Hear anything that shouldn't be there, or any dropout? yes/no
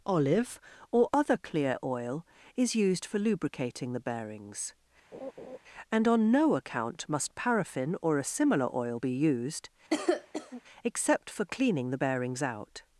yes